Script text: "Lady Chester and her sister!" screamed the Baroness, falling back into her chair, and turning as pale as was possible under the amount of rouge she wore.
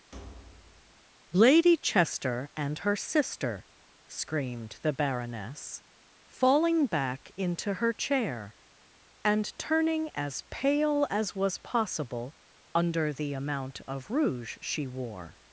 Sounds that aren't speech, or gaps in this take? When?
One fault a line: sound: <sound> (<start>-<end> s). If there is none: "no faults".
sound: thud (0.1-1.1 s)